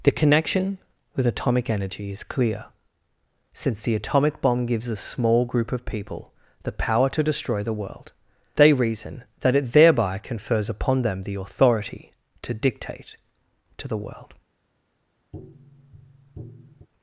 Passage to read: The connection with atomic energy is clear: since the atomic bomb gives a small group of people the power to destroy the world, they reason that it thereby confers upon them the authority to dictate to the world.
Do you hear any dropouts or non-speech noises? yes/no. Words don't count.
yes